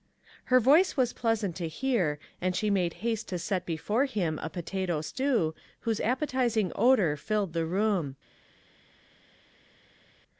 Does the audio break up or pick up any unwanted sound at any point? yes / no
no